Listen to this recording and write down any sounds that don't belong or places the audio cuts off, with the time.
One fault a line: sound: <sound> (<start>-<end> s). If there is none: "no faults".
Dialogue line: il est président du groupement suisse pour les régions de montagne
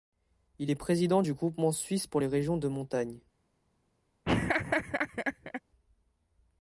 sound: laugh (4.2-5.6 s)